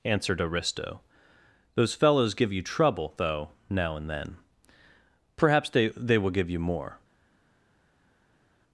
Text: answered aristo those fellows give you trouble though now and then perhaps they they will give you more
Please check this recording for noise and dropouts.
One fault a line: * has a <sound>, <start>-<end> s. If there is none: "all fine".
all fine